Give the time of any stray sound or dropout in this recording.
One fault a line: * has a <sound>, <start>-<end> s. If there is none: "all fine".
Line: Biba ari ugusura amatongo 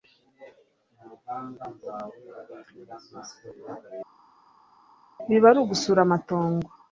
all fine